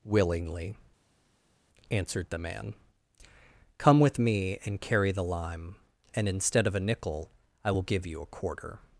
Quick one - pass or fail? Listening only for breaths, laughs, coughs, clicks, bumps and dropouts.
pass